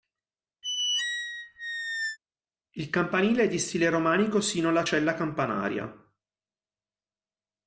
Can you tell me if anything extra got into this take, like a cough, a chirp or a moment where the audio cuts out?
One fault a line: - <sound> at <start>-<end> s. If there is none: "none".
- squeak at 0.6-2.2 s